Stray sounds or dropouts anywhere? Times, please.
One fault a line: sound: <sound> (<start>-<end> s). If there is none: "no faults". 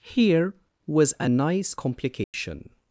sound: dropout (2.2-2.3 s)